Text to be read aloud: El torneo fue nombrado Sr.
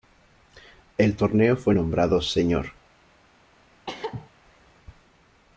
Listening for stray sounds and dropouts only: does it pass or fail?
fail